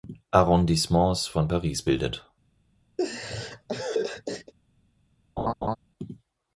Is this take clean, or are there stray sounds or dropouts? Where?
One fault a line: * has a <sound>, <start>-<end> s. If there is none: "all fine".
* has a laugh, 3.0-4.5 s
* has a laugh, 5.4-5.8 s